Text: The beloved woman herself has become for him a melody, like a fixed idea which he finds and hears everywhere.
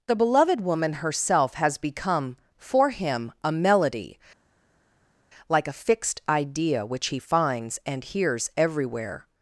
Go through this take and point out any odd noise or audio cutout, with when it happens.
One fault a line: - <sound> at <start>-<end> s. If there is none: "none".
none